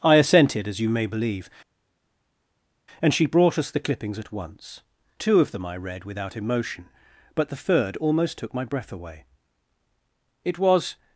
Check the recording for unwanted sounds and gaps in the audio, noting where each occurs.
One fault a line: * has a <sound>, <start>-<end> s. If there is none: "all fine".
all fine